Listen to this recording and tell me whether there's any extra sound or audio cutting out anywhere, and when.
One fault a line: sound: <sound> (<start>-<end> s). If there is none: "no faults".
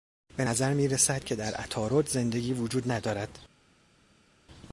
no faults